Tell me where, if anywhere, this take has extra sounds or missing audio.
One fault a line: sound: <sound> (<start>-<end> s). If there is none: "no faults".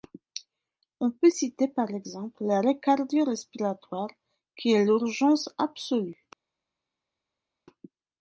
no faults